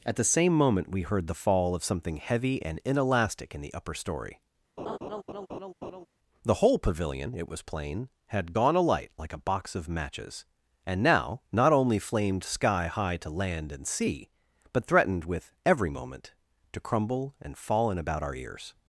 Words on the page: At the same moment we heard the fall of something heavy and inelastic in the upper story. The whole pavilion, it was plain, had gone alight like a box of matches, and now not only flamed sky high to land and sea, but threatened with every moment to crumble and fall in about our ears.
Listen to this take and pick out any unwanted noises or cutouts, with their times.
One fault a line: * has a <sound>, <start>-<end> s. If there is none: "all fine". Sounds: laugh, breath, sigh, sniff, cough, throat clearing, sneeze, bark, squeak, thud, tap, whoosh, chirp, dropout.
* has a laugh, 4.8-6.1 s